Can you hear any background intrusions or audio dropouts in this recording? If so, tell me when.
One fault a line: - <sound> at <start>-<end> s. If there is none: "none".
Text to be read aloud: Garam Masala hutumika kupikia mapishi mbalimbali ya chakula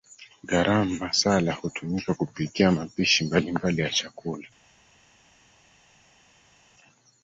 none